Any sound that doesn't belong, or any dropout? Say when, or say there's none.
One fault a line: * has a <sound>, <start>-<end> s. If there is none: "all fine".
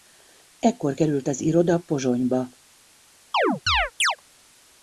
* has a chirp, 3.3-4.2 s